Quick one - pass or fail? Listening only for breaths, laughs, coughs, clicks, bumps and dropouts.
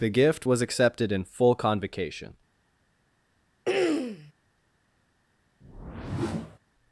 fail